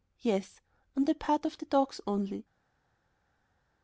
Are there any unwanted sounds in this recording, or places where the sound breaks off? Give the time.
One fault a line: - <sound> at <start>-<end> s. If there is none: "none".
none